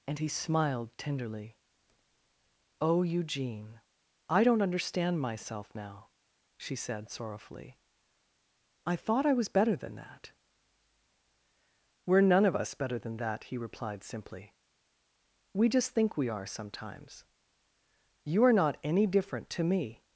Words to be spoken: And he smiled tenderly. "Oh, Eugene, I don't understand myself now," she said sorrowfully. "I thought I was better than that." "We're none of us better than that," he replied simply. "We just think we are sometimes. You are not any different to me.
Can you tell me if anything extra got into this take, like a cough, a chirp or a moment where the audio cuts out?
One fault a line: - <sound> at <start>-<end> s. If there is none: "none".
none